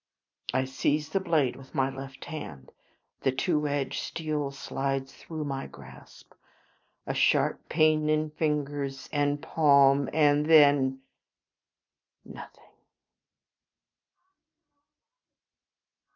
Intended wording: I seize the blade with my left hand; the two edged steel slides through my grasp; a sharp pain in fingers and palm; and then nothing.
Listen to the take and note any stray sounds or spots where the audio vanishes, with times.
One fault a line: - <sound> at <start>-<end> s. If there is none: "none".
none